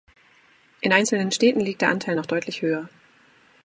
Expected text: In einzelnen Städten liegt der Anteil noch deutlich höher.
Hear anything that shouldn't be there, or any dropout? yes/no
no